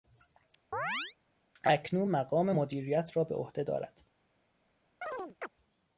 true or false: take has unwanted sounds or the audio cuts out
true